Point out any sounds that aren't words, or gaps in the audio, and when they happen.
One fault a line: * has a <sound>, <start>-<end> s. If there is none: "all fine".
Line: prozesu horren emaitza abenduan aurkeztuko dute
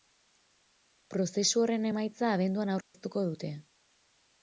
* has a dropout, 2.8-2.9 s